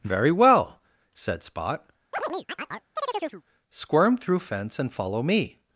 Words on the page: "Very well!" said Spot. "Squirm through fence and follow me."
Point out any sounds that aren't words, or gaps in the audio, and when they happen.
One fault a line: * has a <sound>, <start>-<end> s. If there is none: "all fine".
* has a chirp, 2.1-3.4 s